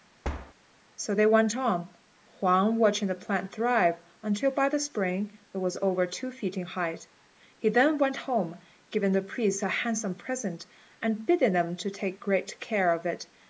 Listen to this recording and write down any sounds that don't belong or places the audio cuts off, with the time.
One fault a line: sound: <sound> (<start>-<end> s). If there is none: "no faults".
sound: thud (0.2-0.5 s)